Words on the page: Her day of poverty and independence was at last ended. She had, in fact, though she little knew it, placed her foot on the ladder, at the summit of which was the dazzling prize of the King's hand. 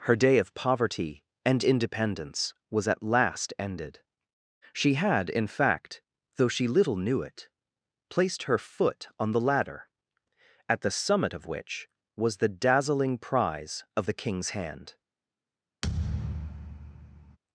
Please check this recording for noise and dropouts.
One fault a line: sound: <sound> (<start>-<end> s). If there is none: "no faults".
sound: thud (15.8-17.4 s)